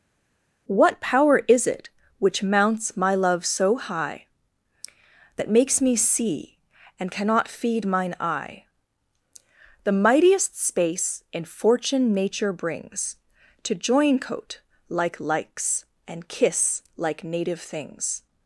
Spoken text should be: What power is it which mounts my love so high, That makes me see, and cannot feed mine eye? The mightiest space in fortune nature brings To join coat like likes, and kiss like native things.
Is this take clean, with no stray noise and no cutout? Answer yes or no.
yes